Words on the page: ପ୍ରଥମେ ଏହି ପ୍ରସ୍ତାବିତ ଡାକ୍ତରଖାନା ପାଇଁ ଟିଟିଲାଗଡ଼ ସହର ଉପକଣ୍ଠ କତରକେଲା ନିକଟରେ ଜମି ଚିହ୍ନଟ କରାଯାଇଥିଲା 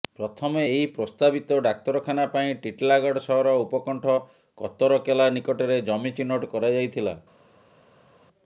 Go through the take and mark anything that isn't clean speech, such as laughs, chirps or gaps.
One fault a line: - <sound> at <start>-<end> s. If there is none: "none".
none